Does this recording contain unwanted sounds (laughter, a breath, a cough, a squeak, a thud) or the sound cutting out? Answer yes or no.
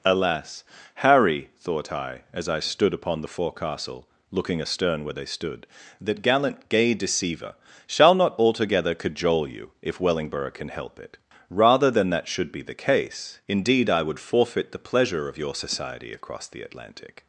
no